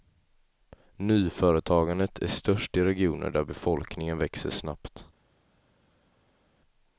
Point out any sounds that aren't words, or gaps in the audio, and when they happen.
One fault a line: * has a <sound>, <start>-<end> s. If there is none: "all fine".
all fine